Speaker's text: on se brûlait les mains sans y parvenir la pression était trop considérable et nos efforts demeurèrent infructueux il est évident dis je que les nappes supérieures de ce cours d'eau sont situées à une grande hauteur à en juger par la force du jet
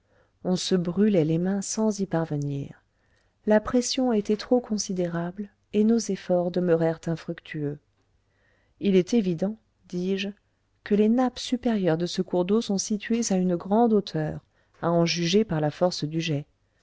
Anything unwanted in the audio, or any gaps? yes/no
no